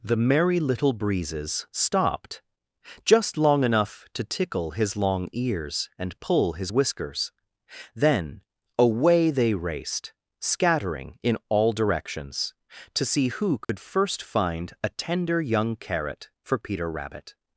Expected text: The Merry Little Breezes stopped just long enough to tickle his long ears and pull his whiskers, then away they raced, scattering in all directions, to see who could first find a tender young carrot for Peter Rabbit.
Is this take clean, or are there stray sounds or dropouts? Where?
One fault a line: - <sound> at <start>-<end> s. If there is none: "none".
- dropout at 13.6-13.7 s